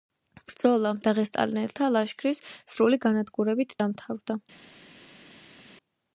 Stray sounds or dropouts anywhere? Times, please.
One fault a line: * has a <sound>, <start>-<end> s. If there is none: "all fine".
all fine